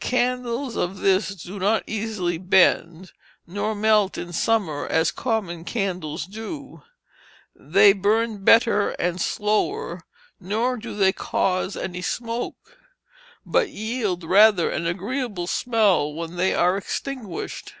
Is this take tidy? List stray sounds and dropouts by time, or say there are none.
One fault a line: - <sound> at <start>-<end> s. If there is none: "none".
none